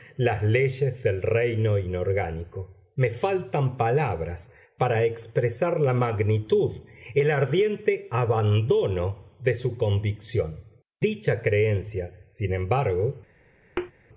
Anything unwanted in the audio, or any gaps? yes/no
yes